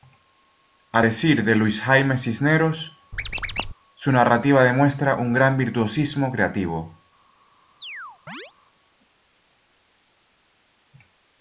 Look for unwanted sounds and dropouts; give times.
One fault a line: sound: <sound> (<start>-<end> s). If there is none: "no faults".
sound: squeak (3.1-3.7 s)
sound: chirp (7.8-8.5 s)